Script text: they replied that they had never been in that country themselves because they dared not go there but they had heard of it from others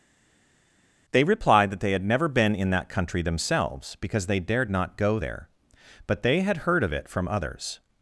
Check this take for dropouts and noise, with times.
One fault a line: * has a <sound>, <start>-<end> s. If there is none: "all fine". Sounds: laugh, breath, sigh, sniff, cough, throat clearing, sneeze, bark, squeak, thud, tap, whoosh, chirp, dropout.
all fine